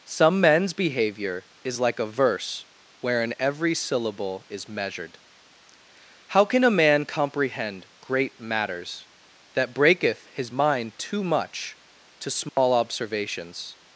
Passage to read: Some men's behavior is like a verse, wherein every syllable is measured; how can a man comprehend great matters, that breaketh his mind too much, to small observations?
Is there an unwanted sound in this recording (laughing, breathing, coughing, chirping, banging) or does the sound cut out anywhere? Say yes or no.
yes